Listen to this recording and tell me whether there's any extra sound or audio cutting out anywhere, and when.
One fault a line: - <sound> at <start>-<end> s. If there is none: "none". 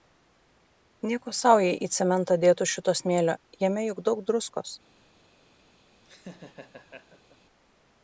- laugh at 6.0-7.4 s